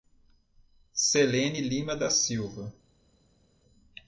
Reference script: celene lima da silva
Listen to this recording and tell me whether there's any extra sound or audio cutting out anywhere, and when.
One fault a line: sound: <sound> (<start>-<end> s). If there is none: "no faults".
no faults